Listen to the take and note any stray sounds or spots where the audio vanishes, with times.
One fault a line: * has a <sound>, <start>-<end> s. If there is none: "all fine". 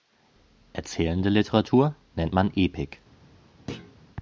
* has a thud, 3.7-4.0 s